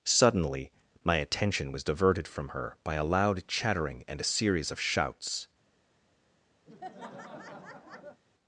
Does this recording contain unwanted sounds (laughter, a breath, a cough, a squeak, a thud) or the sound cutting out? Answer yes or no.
yes